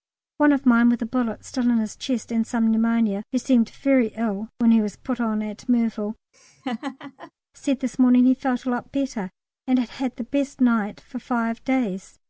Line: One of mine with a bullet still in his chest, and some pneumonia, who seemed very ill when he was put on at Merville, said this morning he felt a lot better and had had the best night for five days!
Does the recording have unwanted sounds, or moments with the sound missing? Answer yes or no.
yes